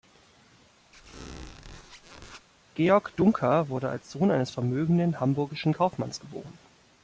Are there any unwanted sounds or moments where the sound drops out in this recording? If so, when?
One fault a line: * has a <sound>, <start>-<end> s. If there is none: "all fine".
* has a squeak, 0.9-2.5 s